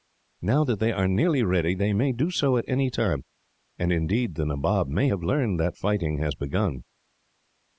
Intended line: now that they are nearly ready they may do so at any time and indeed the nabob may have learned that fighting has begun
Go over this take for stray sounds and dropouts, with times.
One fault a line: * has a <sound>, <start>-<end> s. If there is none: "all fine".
all fine